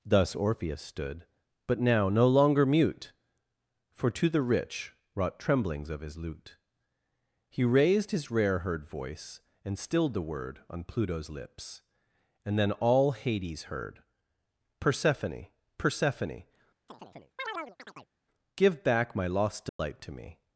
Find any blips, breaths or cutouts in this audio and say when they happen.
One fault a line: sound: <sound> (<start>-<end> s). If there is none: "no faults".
sound: chirp (16.9-18.1 s)
sound: dropout (19.7-19.8 s)